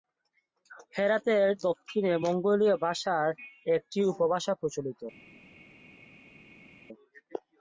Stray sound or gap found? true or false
false